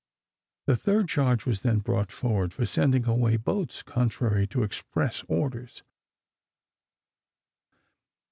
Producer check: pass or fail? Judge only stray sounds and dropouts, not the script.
pass